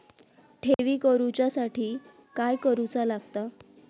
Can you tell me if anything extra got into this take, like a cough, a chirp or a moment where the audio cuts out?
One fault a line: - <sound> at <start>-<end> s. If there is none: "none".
- dropout at 0.7-0.8 s